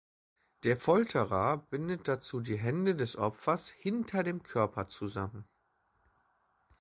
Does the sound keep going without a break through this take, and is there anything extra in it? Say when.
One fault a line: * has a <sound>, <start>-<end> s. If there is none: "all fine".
all fine